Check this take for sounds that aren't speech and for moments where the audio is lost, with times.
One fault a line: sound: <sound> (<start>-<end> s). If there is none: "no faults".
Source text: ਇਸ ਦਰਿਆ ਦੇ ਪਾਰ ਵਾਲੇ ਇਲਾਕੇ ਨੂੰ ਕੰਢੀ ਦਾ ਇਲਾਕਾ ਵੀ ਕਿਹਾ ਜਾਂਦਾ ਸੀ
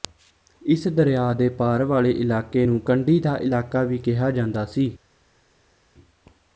no faults